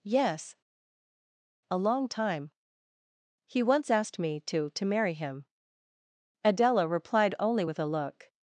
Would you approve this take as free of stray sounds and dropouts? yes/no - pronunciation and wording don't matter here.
yes